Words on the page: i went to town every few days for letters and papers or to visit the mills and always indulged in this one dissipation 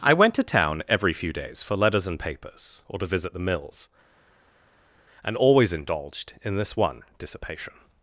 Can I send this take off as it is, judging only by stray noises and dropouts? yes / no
yes